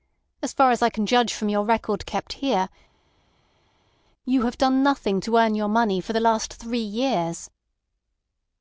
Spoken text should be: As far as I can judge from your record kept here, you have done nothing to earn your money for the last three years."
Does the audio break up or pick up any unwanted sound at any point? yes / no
no